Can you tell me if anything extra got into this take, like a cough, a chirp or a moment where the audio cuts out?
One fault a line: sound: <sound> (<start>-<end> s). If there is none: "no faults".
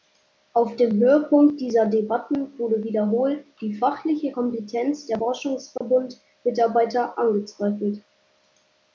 sound: dropout (5.8-5.8 s)